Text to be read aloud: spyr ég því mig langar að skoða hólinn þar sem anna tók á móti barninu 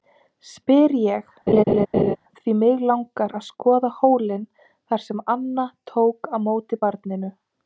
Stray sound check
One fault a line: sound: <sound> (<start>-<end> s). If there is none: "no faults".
sound: laugh (1.5-2.2 s)